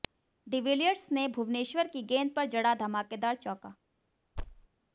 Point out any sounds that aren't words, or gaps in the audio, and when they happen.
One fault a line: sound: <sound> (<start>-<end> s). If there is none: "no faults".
sound: thud (4.4-4.7 s)